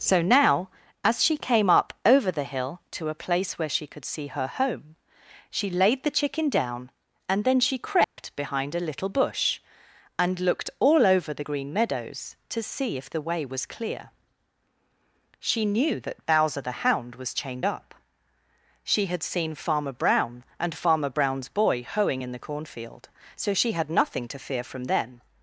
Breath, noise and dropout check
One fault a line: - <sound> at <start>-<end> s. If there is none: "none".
- dropout at 8.0-8.2 s